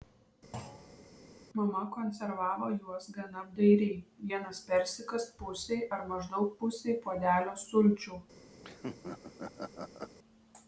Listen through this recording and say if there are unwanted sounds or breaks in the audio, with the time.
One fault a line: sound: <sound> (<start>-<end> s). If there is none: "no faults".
sound: thud (0.5-1.1 s)
sound: laugh (8.6-10.2 s)